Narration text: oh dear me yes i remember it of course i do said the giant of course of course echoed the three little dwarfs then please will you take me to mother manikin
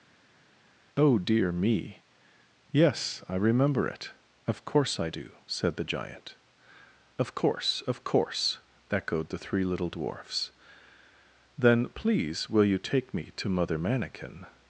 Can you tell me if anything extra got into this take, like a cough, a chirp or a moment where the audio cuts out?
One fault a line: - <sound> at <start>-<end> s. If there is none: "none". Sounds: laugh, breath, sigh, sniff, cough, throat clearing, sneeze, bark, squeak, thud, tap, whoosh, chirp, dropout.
none